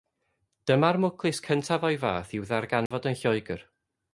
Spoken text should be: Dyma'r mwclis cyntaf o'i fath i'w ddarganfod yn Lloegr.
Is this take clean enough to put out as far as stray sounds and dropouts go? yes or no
no